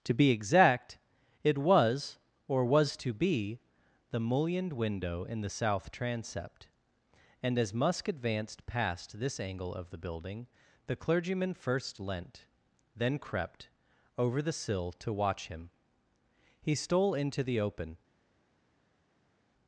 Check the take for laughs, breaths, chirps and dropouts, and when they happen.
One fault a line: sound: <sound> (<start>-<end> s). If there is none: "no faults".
no faults